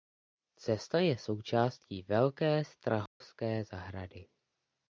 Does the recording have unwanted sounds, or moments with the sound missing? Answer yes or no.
yes